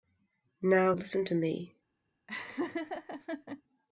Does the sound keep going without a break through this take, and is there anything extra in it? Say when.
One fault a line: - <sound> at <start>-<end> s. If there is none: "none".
- laugh at 2.3-3.6 s